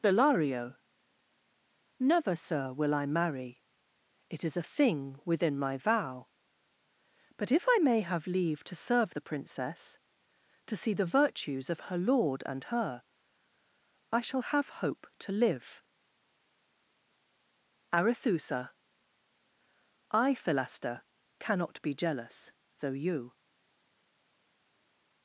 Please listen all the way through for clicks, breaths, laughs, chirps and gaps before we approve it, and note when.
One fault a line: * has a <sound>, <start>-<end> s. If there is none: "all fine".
all fine